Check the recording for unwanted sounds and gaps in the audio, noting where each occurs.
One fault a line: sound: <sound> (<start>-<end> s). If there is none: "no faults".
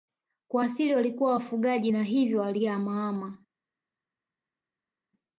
no faults